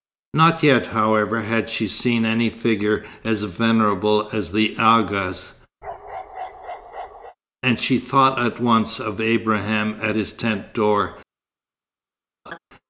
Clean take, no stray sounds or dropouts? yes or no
no